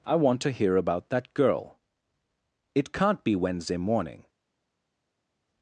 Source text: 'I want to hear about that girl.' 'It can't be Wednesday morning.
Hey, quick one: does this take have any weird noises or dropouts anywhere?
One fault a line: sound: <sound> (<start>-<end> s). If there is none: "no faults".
no faults